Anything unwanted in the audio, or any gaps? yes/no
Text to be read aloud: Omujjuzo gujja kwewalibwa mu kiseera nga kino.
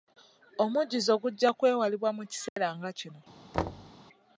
yes